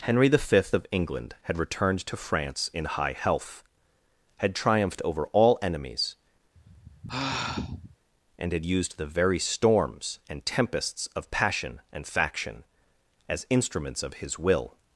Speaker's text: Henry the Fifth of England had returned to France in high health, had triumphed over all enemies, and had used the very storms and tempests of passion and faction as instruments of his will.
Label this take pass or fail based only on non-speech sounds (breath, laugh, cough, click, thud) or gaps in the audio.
fail